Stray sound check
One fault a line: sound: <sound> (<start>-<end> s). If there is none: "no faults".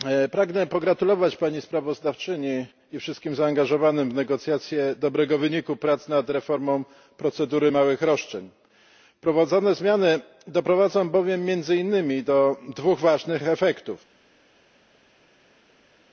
no faults